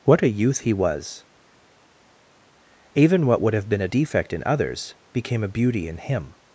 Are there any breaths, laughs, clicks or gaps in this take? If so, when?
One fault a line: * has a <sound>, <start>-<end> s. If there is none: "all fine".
all fine